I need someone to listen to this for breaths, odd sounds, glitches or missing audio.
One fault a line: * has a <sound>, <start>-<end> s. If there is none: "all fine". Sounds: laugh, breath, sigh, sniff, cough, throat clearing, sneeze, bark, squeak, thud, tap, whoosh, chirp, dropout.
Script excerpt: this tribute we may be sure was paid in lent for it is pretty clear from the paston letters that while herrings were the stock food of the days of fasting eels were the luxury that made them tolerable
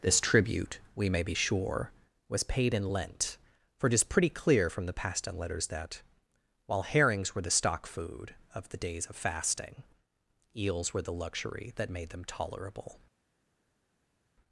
all fine